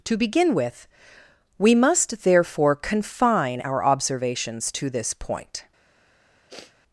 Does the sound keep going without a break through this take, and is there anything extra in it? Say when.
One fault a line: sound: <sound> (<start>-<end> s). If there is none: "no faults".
sound: sniff (6.5-6.7 s)